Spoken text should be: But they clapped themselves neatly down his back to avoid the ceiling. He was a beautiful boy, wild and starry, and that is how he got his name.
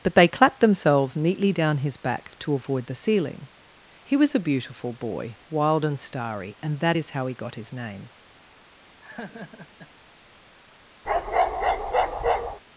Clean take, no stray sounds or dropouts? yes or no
no